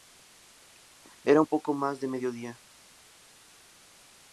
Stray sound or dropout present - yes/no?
no